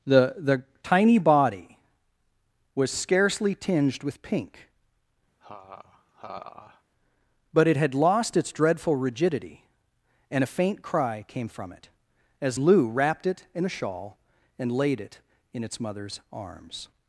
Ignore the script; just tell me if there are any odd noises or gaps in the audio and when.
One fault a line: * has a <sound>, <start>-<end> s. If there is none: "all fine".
* has a laugh, 5.4-6.8 s